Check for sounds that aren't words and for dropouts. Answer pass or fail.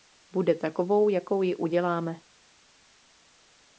pass